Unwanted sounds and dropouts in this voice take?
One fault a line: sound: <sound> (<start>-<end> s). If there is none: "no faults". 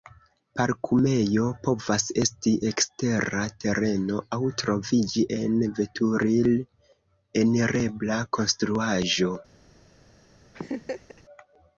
sound: laugh (10.5-11.2 s)